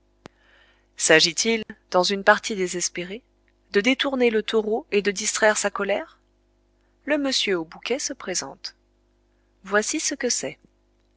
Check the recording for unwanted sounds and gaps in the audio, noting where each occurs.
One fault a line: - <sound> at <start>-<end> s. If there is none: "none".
- dropout at 1.6-1.7 s